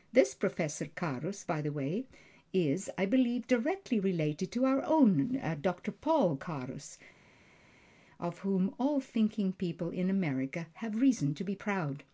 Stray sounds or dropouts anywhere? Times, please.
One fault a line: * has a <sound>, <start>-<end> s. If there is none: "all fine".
all fine